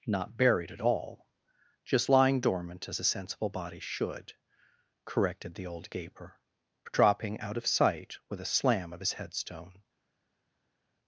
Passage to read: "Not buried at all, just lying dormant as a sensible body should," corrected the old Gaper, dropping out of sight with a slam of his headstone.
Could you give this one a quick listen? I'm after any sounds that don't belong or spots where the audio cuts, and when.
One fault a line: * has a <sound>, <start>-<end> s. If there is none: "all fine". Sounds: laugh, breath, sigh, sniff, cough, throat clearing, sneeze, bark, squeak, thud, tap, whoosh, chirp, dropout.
all fine